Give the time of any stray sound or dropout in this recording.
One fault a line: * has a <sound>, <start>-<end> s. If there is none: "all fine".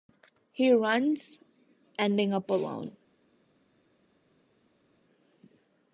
all fine